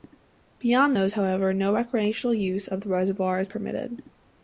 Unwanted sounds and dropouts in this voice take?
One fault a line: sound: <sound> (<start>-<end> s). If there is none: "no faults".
no faults